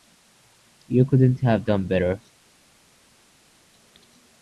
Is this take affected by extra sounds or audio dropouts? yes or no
no